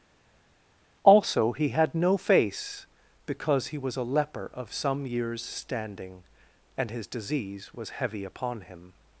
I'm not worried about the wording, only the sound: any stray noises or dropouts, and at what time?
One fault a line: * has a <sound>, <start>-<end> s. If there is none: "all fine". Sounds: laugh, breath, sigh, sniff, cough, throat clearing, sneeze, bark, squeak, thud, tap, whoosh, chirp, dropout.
all fine